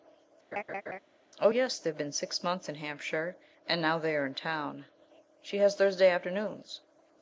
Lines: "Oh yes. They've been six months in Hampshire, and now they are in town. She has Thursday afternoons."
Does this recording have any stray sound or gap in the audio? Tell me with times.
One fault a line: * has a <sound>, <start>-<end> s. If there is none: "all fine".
* has a laugh, 0.5-1.0 s